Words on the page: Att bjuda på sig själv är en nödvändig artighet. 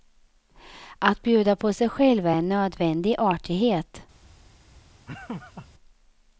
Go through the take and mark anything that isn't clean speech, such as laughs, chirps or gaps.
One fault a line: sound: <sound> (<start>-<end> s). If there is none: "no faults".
sound: laugh (5.1-5.7 s)